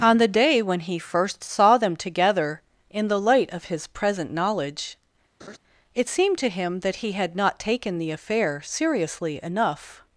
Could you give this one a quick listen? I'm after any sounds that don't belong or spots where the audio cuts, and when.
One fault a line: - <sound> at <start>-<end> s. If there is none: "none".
- laugh at 5.4-5.6 s